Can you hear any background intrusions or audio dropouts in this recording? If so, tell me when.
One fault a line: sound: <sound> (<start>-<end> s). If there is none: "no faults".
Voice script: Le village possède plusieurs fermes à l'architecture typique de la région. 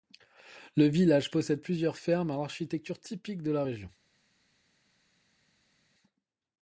no faults